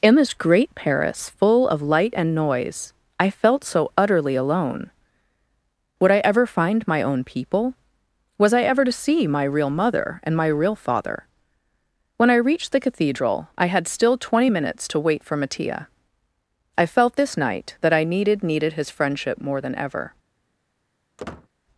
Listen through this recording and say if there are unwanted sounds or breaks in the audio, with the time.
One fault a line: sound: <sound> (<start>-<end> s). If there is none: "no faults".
sound: squeak (21.2-21.5 s)